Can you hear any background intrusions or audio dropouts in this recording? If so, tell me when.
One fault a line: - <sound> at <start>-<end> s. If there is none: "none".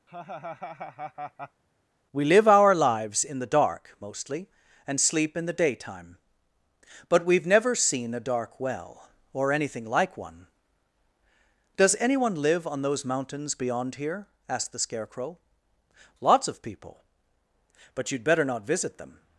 - laugh at 0.1-1.6 s